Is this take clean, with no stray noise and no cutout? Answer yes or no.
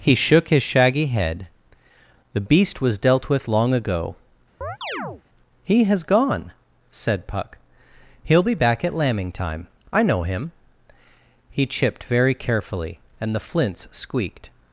no